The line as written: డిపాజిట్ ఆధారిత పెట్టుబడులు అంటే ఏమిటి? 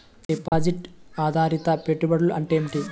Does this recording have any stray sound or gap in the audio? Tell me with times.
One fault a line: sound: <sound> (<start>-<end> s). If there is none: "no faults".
sound: dropout (0.5-0.5 s)